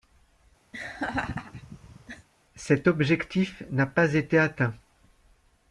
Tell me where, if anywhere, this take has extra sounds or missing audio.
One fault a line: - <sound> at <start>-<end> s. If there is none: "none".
- laugh at 0.7-2.3 s